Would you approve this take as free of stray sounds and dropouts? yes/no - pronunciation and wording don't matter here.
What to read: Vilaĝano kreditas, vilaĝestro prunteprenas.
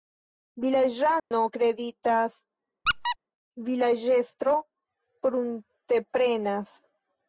no